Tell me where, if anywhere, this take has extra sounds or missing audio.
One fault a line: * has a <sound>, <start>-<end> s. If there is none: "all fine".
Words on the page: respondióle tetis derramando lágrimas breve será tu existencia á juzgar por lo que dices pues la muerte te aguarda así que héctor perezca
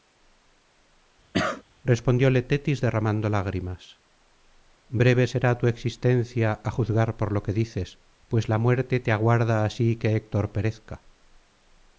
* has a cough, 1.3-1.6 s